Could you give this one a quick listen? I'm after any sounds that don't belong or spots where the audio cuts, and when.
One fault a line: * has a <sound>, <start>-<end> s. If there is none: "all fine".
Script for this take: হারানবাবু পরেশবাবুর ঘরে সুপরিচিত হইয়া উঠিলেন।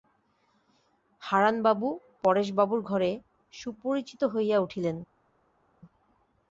all fine